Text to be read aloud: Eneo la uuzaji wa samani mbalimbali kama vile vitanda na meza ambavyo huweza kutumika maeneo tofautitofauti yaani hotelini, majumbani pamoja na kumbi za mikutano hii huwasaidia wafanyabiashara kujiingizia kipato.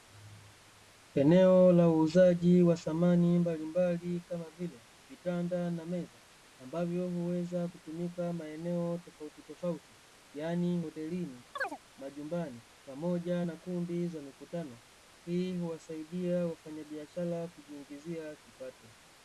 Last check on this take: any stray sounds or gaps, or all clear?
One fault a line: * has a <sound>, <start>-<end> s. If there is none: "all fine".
* has a chirp, 11.6-11.8 s